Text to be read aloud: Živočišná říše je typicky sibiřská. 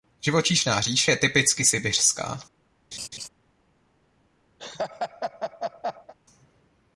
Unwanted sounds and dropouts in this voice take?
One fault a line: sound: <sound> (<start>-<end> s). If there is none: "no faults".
sound: laugh (2.9-3.3 s)
sound: laugh (4.6-6.1 s)